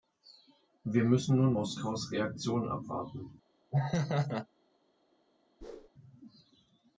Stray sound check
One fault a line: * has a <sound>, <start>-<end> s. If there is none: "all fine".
* has a laugh, 3.7-4.5 s
* has a whoosh, 5.6-5.9 s